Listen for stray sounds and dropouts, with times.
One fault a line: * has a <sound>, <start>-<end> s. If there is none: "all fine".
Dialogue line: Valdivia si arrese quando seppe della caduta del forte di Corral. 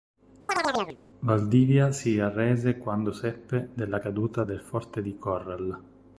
* has a chirp, 0.5-1.0 s